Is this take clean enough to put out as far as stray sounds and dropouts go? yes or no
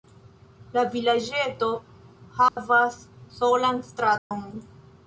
no